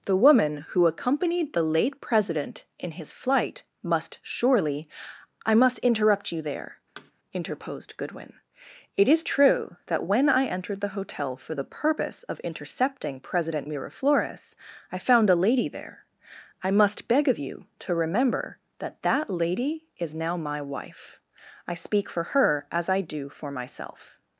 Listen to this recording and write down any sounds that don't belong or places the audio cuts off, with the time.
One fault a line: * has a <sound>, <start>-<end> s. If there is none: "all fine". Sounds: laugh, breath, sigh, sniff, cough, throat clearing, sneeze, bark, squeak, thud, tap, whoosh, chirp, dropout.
* has a thud, 7.0-7.1 s